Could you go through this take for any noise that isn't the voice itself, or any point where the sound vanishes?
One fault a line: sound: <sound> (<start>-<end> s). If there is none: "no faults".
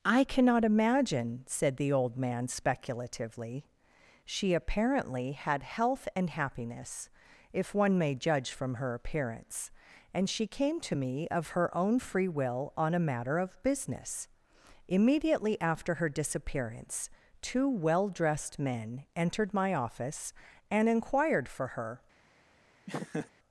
sound: laugh (22.9-23.3 s)